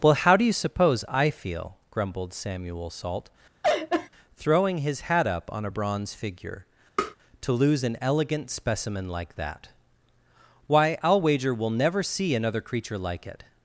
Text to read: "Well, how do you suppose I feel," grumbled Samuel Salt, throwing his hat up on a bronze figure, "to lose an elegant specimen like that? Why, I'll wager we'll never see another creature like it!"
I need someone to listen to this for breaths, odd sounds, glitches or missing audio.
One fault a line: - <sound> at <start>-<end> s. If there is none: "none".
- laugh at 3.6-4.1 s
- tap at 7.0-7.2 s